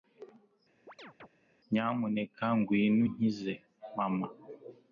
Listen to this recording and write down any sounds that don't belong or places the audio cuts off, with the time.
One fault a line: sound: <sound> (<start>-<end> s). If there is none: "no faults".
sound: chirp (0.9-1.3 s)